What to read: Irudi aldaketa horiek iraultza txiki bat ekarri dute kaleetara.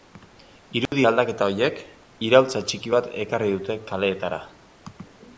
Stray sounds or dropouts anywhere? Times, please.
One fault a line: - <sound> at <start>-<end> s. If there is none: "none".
- dropout at 0.9-0.9 s